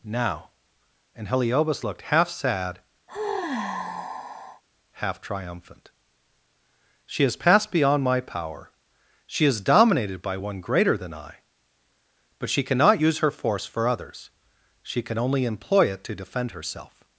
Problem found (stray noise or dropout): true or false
true